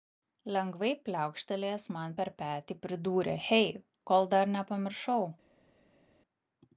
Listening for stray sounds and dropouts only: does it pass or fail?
pass